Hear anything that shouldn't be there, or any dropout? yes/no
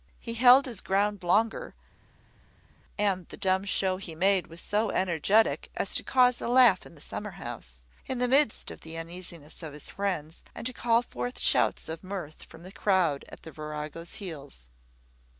no